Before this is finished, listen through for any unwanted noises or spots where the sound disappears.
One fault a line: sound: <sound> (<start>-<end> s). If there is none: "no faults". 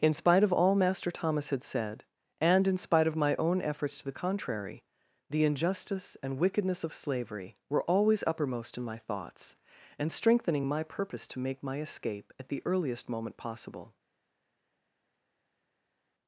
no faults